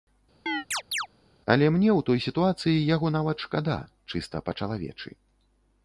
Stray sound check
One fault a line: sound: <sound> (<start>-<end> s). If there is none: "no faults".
sound: chirp (0.5-1.1 s)